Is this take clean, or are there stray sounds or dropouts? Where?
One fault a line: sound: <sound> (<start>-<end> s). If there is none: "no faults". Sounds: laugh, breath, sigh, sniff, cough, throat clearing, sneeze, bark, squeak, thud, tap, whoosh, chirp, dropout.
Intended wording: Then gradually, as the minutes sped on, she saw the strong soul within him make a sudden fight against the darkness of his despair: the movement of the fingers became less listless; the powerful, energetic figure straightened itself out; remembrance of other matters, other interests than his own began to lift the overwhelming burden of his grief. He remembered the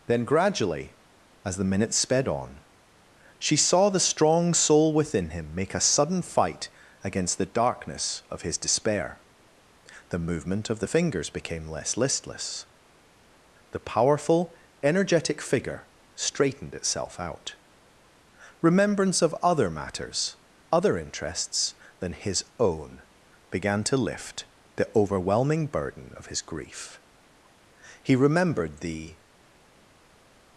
no faults